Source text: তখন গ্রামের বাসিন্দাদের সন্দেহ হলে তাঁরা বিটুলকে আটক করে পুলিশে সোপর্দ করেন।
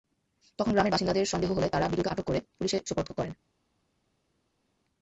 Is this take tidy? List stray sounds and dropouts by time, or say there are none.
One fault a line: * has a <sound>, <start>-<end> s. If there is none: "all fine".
all fine